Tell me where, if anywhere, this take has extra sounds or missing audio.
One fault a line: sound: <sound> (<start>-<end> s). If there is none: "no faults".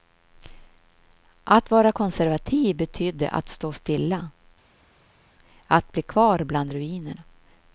no faults